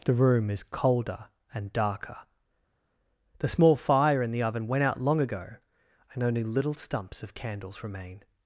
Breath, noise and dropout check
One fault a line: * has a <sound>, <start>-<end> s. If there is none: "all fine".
all fine